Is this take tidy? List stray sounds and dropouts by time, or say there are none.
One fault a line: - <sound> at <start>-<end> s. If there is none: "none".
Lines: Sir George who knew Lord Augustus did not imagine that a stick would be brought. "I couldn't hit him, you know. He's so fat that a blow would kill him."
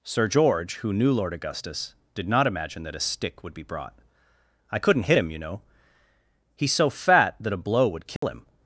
- dropout at 8.2-8.2 s